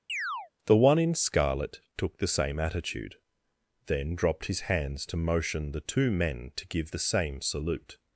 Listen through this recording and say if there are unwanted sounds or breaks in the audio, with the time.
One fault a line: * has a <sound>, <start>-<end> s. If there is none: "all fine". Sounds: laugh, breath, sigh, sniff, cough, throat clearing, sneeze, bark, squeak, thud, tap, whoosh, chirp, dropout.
* has a chirp, 0.1-0.5 s